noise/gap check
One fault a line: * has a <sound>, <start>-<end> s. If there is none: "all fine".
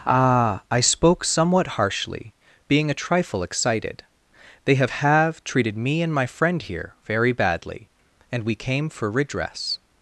all fine